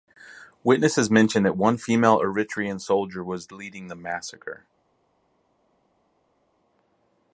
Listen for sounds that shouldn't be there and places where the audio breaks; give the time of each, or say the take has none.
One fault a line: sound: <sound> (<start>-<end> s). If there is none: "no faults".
no faults